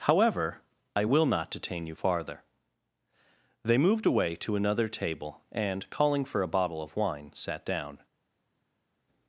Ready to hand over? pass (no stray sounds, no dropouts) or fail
pass